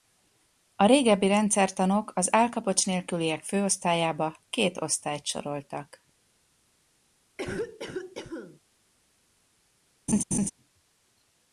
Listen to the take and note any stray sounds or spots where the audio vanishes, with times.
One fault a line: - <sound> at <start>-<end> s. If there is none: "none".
- cough at 7.4-8.6 s
- laugh at 10.1-10.5 s